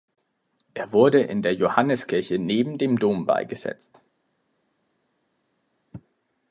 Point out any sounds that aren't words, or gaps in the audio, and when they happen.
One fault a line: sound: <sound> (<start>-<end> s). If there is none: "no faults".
no faults